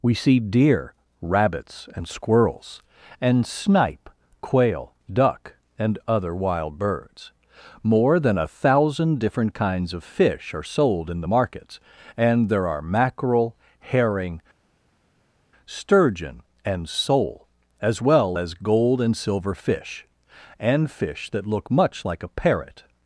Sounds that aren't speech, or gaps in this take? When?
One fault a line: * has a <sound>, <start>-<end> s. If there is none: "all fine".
all fine